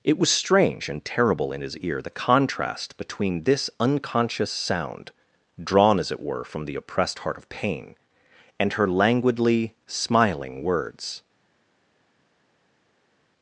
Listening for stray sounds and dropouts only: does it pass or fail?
pass